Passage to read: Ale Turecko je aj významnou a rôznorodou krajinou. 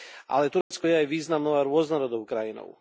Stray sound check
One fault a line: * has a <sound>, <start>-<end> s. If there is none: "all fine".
* has a dropout, 0.6-0.7 s